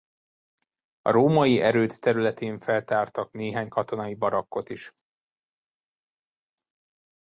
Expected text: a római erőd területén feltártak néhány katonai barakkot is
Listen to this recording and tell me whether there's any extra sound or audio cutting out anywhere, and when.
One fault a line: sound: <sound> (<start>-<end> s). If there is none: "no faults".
no faults